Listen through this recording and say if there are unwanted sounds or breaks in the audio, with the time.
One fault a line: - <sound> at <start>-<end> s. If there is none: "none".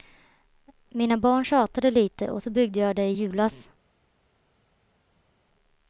none